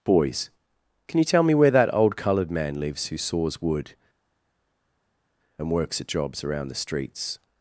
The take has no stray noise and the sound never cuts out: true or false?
true